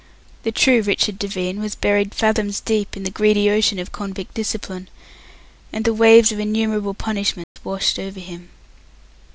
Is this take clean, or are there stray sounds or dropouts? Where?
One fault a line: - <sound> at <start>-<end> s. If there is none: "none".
- dropout at 7.4-7.6 s